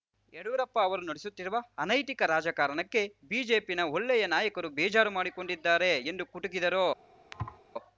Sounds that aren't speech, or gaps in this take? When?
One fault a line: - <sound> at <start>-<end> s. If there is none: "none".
- thud at 7.3-7.6 s